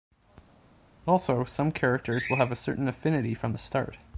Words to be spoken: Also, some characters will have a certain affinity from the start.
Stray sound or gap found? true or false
false